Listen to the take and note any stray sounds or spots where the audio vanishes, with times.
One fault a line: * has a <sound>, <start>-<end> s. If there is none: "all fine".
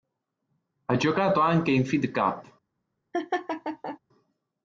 * has a laugh, 3.1-4.0 s